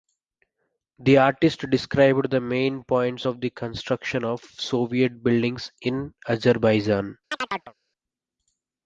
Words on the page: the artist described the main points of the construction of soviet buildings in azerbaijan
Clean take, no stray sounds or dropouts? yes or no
no